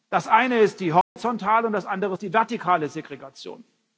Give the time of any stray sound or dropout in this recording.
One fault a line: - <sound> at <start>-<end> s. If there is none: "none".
- dropout at 1.0-1.2 s